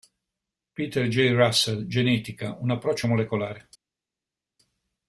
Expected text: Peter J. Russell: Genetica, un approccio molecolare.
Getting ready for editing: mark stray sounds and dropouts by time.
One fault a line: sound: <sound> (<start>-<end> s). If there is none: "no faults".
no faults